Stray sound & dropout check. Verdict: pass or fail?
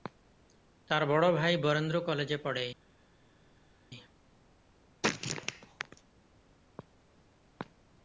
pass